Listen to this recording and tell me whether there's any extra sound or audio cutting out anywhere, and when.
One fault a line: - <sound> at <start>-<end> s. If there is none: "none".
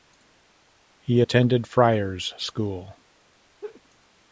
- laugh at 3.6-3.8 s